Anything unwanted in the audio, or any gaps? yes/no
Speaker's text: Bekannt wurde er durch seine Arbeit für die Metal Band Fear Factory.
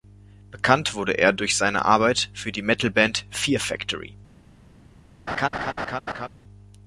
yes